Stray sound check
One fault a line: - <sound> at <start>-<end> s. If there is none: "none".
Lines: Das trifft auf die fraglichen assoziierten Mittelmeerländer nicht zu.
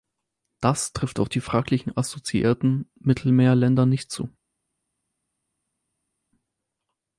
none